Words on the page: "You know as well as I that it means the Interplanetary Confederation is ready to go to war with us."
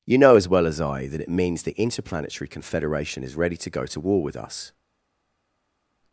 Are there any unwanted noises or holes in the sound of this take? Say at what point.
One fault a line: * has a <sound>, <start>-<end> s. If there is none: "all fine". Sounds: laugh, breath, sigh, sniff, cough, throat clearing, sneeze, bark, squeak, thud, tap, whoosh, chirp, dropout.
all fine